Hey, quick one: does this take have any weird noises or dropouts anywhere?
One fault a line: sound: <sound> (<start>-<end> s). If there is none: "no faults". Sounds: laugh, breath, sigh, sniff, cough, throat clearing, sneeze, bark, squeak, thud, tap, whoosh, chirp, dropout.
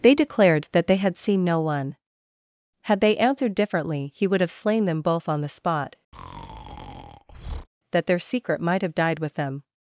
sound: breath (6.1-7.7 s)